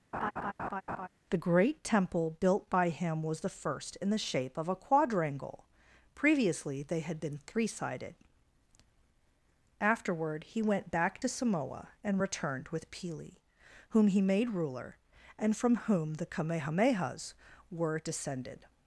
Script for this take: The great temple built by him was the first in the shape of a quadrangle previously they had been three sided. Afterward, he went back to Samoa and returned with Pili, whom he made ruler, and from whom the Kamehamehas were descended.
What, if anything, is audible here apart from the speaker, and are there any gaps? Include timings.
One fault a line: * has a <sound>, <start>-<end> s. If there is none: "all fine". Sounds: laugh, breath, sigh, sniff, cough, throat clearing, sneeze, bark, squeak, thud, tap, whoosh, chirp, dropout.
* has a laugh, 0.1-1.1 s